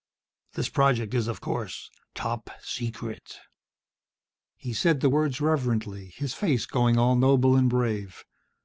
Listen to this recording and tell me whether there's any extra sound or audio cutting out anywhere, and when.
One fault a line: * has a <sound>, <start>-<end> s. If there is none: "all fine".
all fine